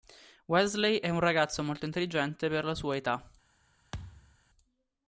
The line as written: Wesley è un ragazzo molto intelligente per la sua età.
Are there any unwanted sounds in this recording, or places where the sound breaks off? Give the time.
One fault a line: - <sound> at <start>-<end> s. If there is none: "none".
- thud at 3.9-4.4 s